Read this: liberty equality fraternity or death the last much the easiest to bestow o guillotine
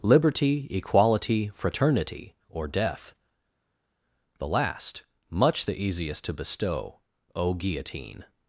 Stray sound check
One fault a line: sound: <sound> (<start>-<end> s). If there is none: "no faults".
no faults